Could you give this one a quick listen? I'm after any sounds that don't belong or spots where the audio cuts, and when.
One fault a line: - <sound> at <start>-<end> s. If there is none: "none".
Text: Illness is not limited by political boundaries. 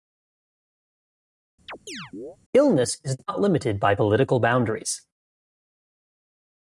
- chirp at 1.7-2.4 s